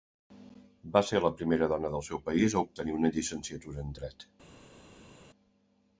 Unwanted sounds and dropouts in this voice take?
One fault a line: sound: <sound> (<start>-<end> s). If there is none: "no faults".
no faults